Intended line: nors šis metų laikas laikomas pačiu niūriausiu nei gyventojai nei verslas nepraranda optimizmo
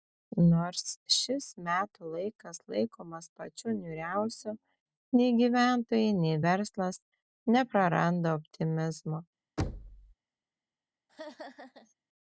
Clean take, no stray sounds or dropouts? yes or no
no